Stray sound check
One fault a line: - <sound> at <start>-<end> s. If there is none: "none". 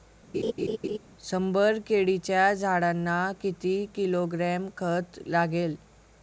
- laugh at 0.3-1.0 s